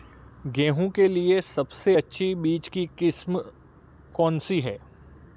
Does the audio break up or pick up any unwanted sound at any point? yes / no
no